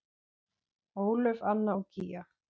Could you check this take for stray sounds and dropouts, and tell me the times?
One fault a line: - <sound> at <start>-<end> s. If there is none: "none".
none